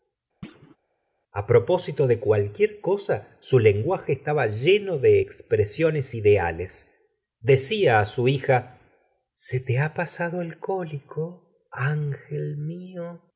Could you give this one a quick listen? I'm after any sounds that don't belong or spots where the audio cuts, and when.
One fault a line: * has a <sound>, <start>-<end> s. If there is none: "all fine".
* has a thud, 0.4-0.8 s